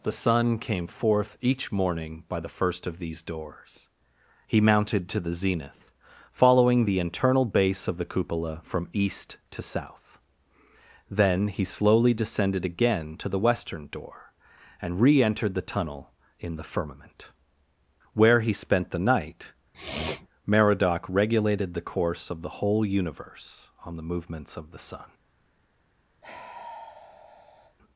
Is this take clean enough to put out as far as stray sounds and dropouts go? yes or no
no